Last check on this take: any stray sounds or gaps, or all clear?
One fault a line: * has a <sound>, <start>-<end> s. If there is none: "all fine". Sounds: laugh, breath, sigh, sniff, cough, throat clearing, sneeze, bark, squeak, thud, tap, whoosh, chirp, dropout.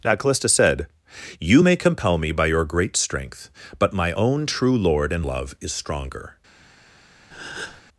* has a breath, 7.3-7.8 s